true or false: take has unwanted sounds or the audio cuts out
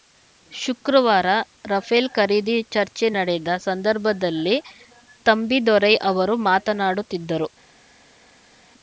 false